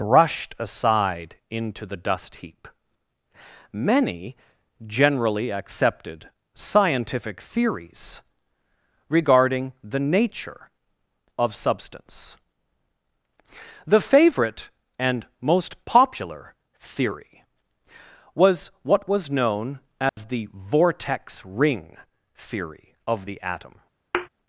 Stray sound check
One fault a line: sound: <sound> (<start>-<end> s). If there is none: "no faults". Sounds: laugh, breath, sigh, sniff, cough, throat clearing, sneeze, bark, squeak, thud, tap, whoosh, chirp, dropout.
sound: dropout (20.1-20.2 s)
sound: thud (24.1-24.3 s)